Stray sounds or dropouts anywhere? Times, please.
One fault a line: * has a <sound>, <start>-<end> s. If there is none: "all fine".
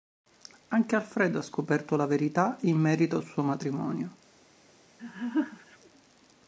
* has a laugh, 5.0-5.8 s